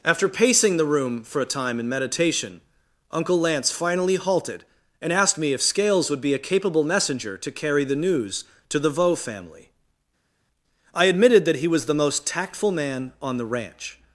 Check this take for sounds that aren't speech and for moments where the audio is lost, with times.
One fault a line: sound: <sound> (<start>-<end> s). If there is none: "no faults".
no faults